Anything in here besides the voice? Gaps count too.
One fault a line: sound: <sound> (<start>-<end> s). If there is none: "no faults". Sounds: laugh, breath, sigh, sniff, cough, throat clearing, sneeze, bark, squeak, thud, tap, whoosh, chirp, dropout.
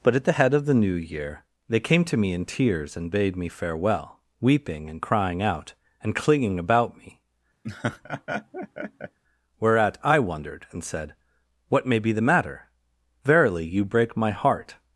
sound: laugh (7.6-9.2 s)